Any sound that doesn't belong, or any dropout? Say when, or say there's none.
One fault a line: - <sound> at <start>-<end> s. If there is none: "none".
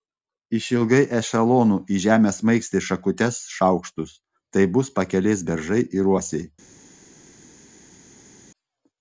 none